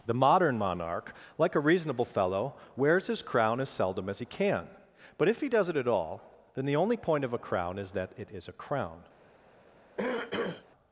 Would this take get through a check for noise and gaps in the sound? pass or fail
fail